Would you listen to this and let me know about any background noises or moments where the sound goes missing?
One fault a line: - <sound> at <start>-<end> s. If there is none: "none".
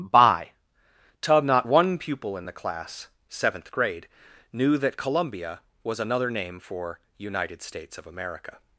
none